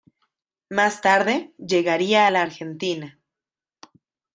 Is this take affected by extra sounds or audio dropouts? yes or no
no